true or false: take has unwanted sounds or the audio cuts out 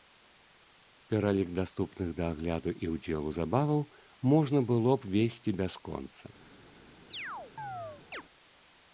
true